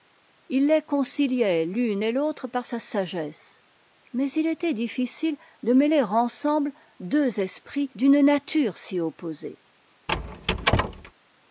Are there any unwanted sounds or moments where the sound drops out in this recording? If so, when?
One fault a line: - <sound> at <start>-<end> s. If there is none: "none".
- squeak at 10.1-11.1 s